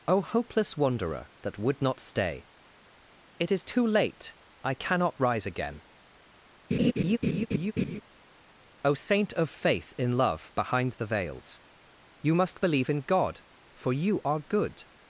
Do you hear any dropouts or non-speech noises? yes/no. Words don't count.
yes